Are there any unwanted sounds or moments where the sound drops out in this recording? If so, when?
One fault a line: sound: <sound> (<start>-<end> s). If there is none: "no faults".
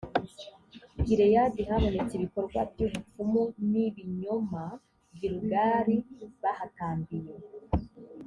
no faults